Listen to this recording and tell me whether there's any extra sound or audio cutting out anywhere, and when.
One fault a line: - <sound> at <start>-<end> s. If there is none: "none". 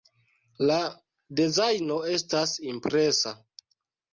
none